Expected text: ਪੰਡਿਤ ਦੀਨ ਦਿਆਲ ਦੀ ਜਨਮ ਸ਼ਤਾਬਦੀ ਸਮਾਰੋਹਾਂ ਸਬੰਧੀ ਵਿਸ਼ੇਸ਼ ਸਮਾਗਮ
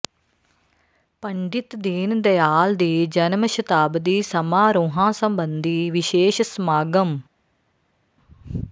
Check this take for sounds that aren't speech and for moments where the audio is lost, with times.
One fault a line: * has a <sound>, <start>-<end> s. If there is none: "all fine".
all fine